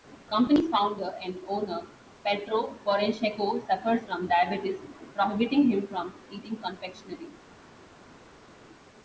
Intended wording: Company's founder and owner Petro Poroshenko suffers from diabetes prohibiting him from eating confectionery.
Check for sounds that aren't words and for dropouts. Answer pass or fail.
pass